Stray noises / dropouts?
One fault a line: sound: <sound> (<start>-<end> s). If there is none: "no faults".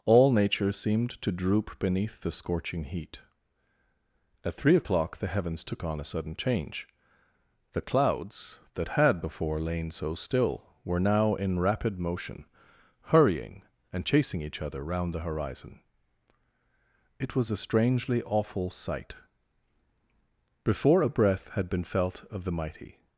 no faults